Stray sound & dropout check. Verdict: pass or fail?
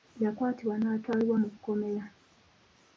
pass